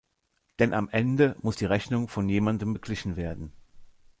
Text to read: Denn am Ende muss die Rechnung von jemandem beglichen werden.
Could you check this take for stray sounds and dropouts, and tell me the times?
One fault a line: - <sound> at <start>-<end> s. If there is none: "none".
none